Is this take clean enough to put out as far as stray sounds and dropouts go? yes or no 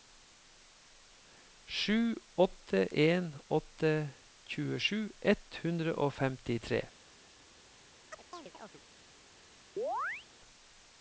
no